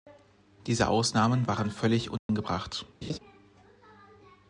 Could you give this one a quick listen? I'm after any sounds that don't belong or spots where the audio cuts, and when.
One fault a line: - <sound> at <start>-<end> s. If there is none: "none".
- dropout at 2.2-2.3 s
- laugh at 3.0-3.2 s